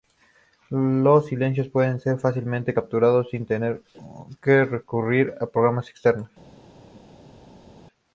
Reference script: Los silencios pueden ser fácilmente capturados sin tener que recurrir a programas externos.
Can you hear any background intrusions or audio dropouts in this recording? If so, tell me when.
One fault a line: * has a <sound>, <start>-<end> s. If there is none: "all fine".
all fine